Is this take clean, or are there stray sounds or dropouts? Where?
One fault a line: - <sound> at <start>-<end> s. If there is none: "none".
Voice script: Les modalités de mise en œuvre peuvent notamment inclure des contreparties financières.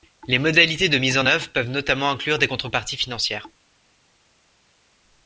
none